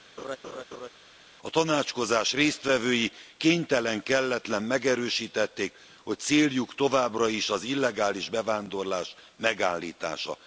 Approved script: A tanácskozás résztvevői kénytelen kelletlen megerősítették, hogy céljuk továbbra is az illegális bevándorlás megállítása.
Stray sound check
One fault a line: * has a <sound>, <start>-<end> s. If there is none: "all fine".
* has a laugh, 0.2-0.9 s